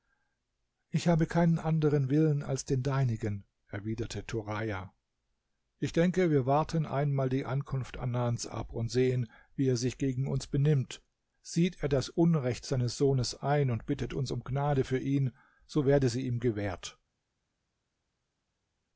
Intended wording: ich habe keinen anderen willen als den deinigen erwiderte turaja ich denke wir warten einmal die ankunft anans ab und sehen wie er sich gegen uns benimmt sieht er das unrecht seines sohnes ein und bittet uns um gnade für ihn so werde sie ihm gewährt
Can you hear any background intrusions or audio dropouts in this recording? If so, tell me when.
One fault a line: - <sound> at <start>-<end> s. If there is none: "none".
none